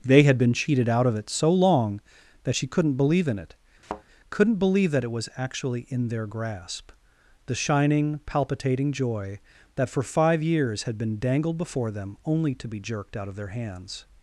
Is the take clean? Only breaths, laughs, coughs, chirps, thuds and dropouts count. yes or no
no